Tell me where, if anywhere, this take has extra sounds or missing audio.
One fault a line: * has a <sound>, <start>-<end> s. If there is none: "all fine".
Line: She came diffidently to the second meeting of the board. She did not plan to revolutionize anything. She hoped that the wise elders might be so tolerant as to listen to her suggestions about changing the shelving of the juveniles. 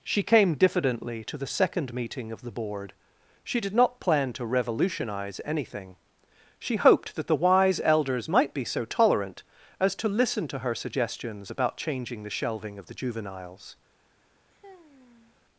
* has a sigh, 14.5-15.4 s